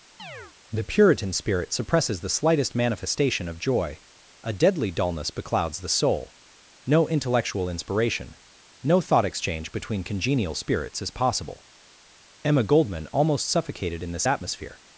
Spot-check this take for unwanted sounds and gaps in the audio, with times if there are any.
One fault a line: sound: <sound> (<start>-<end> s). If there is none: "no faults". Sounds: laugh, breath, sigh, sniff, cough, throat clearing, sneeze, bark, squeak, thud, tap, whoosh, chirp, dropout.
sound: chirp (0.2-0.5 s)